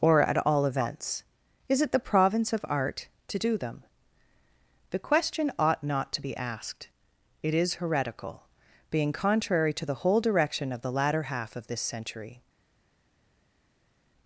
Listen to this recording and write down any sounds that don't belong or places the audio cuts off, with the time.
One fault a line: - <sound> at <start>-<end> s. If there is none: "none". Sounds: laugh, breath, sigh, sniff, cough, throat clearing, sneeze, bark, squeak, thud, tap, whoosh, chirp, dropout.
none